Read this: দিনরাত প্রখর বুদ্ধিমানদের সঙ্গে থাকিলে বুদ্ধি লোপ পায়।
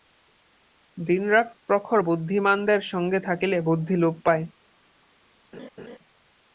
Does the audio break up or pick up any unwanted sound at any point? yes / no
yes